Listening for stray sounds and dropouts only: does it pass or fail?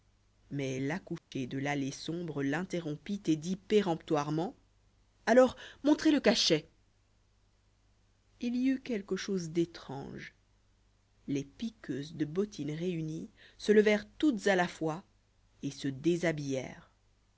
fail